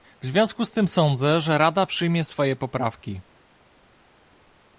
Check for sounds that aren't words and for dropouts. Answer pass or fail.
pass